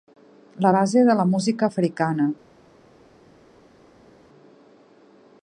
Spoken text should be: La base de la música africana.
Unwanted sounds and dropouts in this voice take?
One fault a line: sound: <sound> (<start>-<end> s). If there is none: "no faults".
no faults